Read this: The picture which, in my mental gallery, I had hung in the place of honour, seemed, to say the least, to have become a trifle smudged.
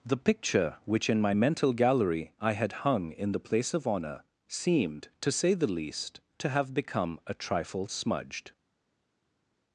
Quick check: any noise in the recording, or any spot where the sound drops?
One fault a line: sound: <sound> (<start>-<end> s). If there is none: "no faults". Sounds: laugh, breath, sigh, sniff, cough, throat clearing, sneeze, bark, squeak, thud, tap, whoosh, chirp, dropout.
no faults